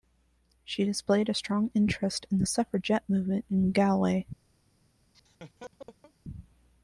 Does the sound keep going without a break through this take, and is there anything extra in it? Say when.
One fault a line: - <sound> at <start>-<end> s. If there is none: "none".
- laugh at 5.1-6.1 s